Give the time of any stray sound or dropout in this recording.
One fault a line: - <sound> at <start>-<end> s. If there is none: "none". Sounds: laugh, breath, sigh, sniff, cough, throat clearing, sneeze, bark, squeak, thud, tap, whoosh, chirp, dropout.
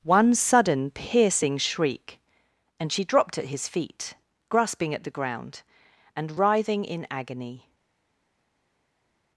none